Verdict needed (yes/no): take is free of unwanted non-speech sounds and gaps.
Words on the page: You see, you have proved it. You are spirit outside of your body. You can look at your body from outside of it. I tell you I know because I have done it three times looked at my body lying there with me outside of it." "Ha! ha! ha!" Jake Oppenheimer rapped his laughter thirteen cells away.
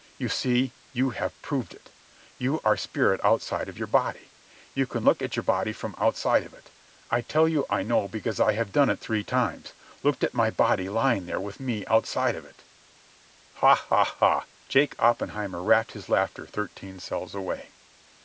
yes